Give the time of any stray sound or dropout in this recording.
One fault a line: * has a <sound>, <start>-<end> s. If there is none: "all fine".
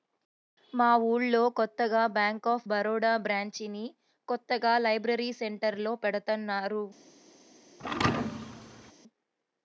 * has a thud, 7.8-8.9 s